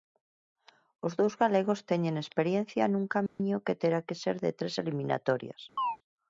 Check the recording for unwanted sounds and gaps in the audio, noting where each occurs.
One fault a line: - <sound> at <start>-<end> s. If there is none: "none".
- dropout at 3.3-3.4 s
- chirp at 5.8-6.0 s